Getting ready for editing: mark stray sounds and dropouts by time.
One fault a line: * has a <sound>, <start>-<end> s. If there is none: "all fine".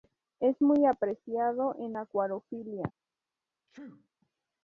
* has a sneeze, 3.7-4.1 s